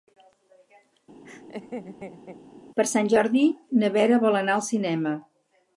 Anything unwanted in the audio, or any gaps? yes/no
yes